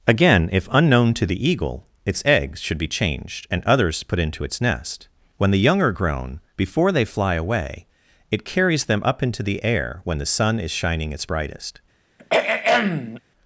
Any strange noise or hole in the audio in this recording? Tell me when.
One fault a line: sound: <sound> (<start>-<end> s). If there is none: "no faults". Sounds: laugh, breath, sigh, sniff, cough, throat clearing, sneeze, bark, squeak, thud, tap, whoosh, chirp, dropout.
sound: throat clearing (12.2-13.2 s)